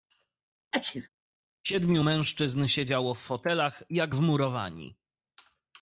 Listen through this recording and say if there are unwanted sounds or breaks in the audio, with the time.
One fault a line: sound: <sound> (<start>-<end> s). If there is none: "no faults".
sound: sneeze (0.7-1.1 s)